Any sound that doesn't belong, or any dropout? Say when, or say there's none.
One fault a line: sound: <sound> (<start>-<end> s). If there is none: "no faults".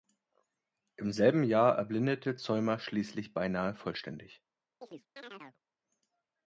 sound: chirp (4.8-5.6 s)